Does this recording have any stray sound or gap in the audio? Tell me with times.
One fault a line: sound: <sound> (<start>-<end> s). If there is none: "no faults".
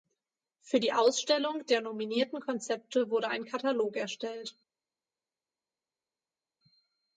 no faults